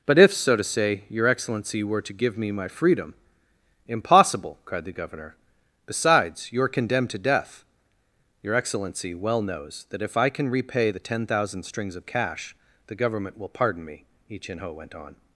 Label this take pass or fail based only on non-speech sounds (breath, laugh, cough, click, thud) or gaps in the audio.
pass